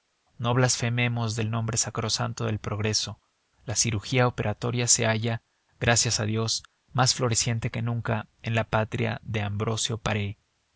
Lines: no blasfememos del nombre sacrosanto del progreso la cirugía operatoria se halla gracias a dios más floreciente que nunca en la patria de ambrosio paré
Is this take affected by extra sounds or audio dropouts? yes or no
no